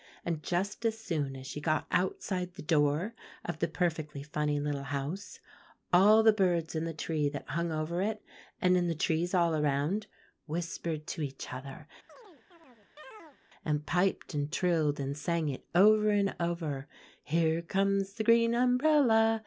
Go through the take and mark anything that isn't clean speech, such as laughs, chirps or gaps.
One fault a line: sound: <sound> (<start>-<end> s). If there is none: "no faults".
sound: chirp (12.1-13.4 s)